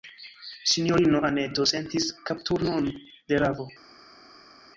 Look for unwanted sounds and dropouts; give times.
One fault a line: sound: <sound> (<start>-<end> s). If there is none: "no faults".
no faults